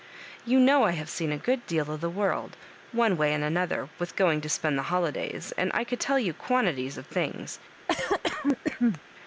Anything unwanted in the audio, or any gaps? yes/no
yes